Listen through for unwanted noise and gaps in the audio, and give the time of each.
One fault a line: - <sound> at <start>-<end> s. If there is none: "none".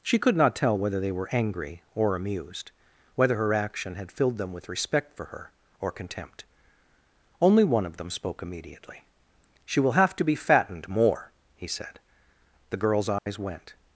- dropout at 13.2-13.3 s